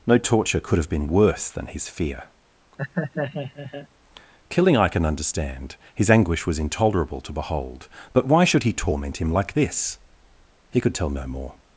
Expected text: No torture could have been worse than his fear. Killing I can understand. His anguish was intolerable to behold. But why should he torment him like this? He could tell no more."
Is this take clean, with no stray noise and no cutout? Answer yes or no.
no